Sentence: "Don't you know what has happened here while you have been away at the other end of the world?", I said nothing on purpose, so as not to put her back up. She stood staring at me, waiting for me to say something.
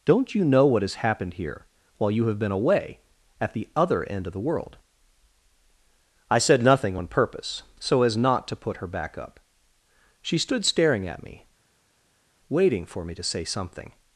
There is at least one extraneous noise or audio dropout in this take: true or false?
false